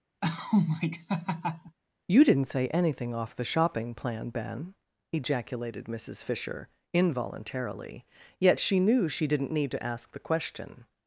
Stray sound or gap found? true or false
true